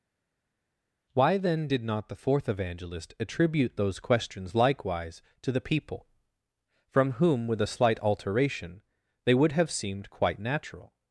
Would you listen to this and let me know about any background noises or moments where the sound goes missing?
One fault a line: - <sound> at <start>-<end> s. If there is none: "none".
none